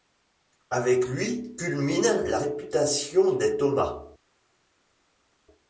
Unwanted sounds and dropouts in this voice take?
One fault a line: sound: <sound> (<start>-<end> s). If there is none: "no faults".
no faults